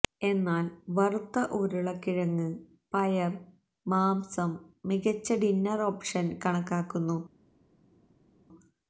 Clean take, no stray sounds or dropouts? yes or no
yes